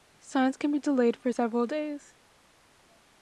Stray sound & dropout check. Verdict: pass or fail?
pass